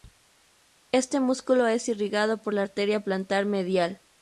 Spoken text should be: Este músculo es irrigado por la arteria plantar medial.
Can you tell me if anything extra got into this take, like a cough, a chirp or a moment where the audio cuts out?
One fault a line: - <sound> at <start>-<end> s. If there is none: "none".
none